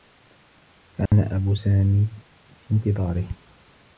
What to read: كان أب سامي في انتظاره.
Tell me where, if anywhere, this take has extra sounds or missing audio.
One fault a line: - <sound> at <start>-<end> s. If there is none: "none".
- dropout at 1.1-1.1 s